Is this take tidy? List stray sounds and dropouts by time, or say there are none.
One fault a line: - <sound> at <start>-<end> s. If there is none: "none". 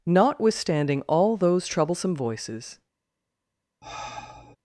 - sigh at 3.8-4.6 s